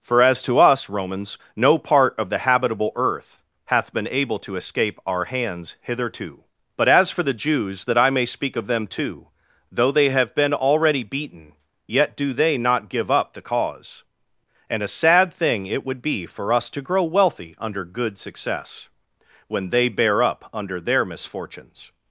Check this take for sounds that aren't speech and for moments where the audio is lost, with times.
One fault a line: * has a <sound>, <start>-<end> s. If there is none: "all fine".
all fine